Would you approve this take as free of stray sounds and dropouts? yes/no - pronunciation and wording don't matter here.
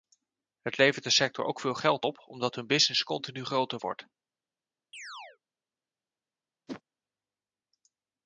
no